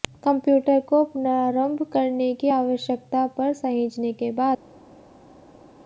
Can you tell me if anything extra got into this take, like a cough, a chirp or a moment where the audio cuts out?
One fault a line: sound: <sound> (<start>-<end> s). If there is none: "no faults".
no faults